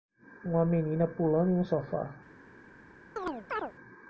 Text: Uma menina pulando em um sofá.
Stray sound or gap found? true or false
true